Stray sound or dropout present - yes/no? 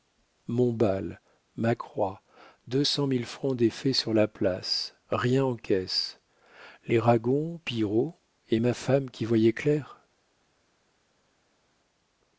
no